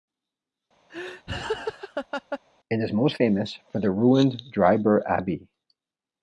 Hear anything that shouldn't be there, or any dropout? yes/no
yes